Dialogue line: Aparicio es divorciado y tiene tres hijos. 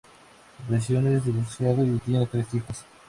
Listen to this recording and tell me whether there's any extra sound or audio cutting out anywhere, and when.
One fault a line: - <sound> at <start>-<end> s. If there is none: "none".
none